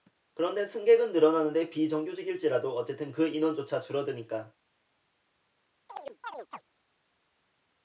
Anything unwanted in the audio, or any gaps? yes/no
yes